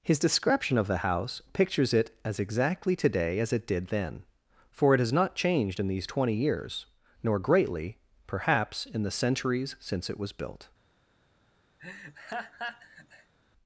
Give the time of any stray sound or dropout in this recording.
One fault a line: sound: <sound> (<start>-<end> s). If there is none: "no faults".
sound: laugh (11.8-13.3 s)